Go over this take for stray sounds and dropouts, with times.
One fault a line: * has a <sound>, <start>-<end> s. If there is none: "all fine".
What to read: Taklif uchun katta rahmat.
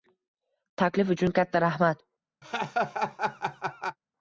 * has a laugh, 2.4-4.0 s